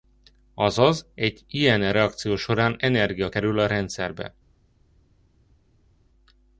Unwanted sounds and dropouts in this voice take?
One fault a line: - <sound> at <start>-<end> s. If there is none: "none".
none